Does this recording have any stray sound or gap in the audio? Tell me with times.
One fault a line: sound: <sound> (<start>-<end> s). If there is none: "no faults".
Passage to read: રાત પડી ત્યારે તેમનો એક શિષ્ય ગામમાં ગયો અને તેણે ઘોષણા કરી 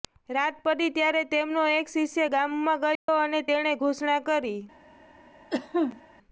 sound: dropout (3.0-3.1 s)
sound: cough (5.5-6.0 s)